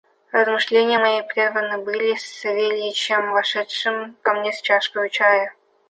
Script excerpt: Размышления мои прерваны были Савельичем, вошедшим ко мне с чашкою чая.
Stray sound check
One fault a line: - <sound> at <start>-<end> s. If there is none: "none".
none